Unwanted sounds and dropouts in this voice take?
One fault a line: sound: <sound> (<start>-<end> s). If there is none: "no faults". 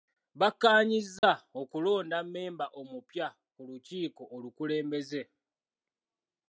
sound: dropout (1.2-1.2 s)